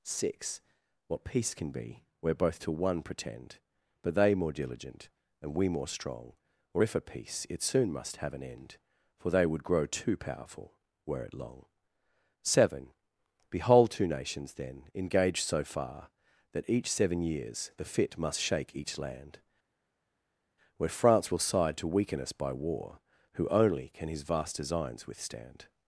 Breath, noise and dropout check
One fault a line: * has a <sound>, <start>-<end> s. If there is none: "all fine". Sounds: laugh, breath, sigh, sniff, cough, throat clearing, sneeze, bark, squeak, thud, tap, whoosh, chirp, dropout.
all fine